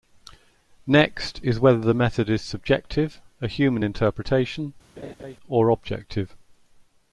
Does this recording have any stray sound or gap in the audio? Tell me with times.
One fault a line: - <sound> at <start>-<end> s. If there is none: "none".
- laugh at 5.0-5.4 s